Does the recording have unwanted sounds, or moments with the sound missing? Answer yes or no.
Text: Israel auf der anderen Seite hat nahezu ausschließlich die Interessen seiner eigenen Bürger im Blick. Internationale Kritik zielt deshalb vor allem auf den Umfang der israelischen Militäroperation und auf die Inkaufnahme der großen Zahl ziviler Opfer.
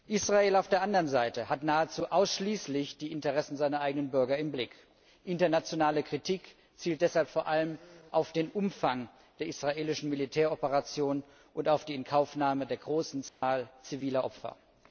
yes